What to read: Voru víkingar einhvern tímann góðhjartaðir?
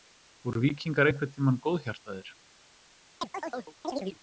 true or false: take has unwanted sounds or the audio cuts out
true